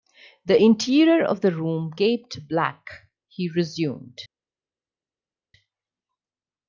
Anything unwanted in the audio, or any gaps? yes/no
no